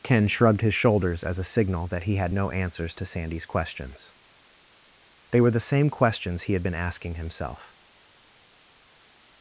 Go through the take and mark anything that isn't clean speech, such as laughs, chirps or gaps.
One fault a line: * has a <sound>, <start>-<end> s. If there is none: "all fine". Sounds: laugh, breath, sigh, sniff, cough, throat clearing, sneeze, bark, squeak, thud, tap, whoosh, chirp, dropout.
all fine